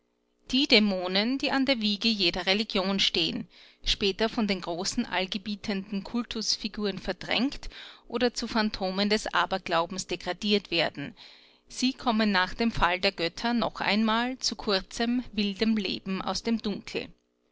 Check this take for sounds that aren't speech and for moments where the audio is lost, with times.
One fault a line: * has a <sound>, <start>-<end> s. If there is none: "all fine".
all fine